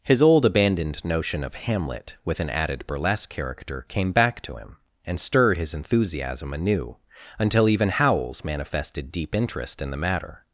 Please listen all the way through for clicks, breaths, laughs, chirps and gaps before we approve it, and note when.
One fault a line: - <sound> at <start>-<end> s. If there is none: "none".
none